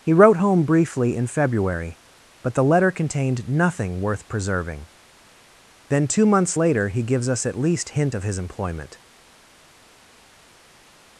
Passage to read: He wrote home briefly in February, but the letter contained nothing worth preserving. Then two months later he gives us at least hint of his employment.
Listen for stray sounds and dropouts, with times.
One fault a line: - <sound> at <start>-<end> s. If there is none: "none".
none